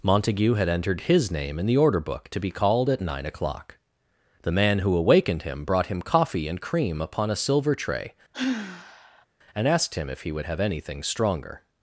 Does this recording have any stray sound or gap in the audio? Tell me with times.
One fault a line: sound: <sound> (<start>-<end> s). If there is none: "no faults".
sound: sigh (8.3-9.3 s)